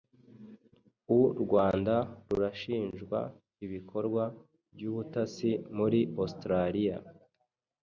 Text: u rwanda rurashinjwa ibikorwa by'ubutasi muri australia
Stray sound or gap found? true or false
false